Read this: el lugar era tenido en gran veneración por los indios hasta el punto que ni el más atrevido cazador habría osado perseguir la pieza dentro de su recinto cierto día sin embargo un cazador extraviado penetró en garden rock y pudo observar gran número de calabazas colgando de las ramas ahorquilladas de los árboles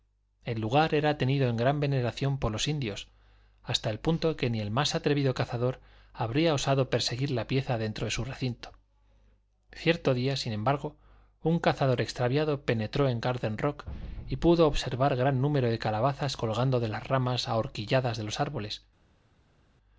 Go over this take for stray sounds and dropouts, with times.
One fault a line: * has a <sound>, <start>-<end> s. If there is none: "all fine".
all fine